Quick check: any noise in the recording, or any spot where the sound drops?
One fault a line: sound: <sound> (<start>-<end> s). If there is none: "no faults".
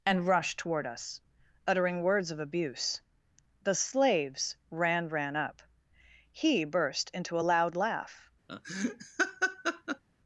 sound: laugh (8.5-10.0 s)